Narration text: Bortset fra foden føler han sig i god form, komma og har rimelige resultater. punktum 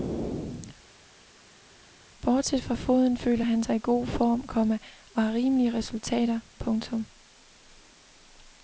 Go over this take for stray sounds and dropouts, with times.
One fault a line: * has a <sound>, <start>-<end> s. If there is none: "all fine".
all fine